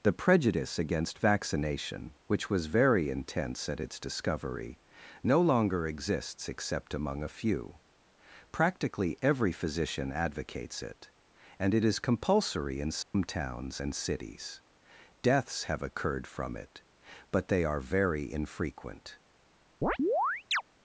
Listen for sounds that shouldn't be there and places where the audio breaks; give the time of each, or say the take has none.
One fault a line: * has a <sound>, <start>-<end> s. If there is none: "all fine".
* has a dropout, 13.0-13.1 s
* has a chirp, 19.8-20.6 s